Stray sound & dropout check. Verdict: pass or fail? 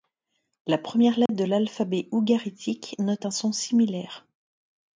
fail